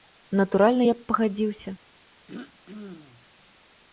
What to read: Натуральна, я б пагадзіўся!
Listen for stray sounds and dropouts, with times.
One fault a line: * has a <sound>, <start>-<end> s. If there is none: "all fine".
* has a throat clearing, 2.3-3.3 s